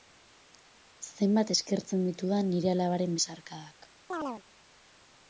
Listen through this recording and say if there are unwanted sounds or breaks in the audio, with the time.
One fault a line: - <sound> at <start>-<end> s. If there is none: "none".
- chirp at 4.1-4.4 s